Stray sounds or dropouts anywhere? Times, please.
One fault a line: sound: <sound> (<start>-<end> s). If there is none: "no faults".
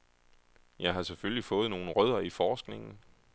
no faults